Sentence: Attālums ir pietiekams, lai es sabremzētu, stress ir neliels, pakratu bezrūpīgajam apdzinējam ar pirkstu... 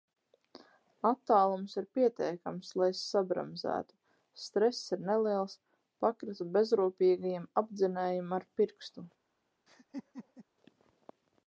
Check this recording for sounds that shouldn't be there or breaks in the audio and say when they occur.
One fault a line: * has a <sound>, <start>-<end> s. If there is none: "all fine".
* has a laugh, 9.7-10.5 s